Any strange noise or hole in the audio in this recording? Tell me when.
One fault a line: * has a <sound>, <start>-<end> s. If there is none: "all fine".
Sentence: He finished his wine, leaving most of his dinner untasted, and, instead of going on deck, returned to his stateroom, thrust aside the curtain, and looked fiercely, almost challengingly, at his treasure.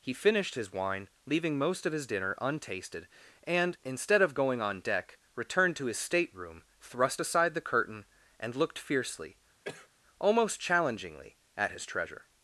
* has a cough, 9.6-9.9 s